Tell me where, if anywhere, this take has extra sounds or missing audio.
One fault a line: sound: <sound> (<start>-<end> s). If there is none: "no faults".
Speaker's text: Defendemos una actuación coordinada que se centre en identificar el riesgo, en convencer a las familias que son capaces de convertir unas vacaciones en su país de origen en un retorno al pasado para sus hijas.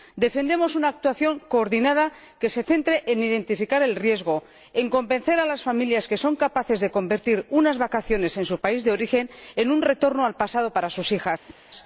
sound: whoosh (11.5-11.6 s)